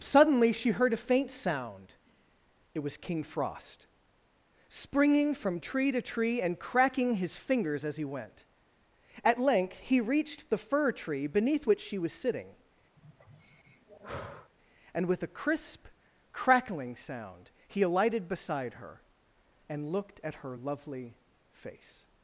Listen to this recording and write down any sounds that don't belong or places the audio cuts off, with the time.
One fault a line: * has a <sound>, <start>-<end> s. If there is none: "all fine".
* has a sigh, 13.0-14.5 s